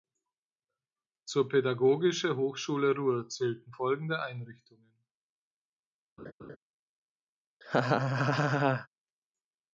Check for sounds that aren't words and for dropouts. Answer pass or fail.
fail